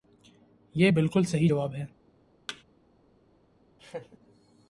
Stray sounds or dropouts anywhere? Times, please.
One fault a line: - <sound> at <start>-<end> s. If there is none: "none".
- thud at 2.5-2.6 s
- laugh at 3.8-4.2 s